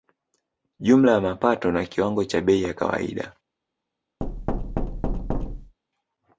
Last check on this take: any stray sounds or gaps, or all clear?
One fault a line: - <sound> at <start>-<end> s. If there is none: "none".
- thud at 4.2-5.8 s